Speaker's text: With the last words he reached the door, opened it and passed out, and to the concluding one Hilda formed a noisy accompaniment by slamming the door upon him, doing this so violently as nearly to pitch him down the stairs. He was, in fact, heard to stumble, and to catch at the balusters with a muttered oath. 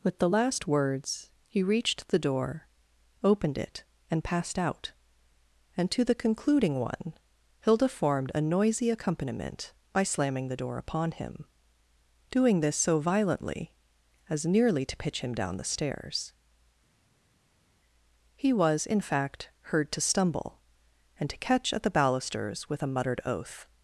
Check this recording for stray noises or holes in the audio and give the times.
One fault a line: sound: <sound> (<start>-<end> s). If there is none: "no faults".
no faults